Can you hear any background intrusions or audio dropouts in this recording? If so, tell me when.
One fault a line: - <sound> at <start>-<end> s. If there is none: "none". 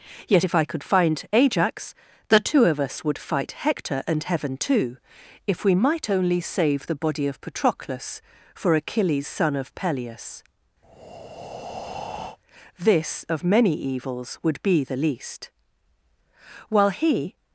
- breath at 10.8-12.4 s